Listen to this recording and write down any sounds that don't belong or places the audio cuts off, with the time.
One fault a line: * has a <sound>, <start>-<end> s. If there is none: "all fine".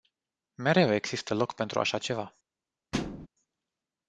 * has a thud, 2.9-3.3 s